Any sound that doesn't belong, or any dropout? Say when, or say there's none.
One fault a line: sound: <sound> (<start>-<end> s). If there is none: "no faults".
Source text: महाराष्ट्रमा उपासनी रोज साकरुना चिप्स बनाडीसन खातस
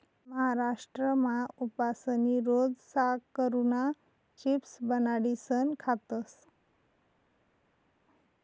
no faults